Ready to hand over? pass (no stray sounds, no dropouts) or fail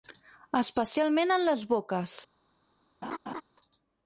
fail